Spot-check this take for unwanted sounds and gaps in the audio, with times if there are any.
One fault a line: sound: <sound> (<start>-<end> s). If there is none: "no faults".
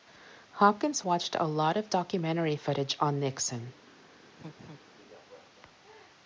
sound: laugh (4.4-4.8 s)